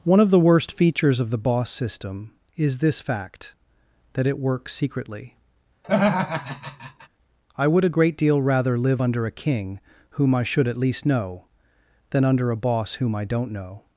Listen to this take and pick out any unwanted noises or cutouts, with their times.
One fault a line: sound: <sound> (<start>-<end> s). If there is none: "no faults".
sound: laugh (5.8-7.1 s)